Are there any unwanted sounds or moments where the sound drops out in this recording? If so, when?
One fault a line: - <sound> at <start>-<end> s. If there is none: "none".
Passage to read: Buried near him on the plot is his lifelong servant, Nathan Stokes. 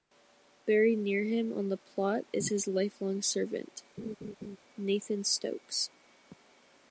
- laugh at 4.0-4.6 s